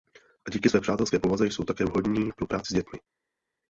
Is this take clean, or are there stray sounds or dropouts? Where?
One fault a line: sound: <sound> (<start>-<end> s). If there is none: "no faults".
no faults